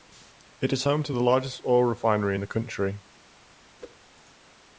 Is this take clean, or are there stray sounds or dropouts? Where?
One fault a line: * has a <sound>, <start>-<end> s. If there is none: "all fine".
* has a whoosh, 3.8-4.0 s